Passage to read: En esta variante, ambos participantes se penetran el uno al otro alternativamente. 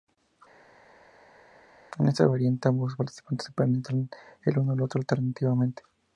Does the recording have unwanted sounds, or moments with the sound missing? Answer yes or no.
no